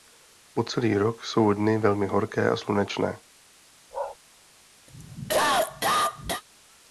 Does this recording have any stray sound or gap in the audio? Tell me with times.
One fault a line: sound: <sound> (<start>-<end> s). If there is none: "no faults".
sound: bark (3.9-4.2 s)
sound: cough (4.9-6.4 s)